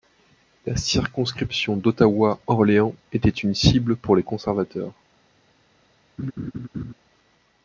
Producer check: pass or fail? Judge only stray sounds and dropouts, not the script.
fail